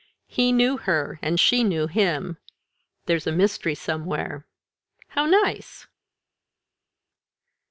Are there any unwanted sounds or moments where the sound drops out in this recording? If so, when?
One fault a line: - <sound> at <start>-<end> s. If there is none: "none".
none